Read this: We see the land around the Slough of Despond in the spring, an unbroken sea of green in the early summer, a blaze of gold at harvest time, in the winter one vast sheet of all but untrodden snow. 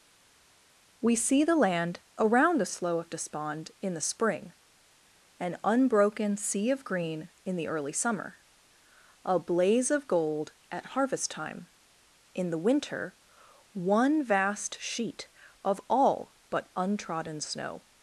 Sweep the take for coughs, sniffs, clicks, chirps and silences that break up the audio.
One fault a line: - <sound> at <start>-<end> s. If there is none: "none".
none